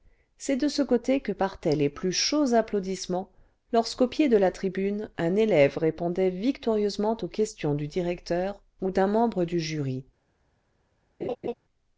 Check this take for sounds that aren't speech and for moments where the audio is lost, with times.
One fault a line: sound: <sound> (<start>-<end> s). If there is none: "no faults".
sound: laugh (11.2-11.5 s)